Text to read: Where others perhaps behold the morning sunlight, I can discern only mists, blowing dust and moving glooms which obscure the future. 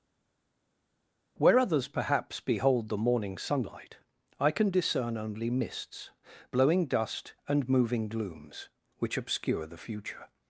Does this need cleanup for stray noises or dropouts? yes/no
no